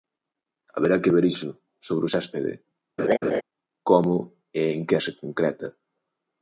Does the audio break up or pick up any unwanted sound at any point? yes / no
yes